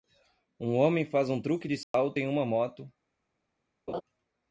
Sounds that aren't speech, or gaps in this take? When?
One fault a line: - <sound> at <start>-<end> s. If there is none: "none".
- dropout at 1.8-1.9 s
- laugh at 3.9-4.0 s